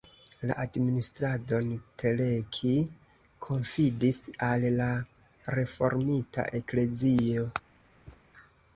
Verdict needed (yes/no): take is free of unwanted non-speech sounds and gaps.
no